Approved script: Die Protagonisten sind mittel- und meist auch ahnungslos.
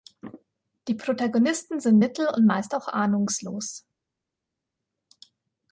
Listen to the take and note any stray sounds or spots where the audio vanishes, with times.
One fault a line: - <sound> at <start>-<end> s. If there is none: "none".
none